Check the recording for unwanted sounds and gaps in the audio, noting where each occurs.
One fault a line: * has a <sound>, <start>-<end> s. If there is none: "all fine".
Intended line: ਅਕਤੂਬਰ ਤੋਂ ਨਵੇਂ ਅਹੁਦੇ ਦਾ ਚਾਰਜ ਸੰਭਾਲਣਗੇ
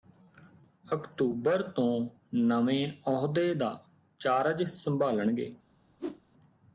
* has a whoosh, 6.0-6.2 s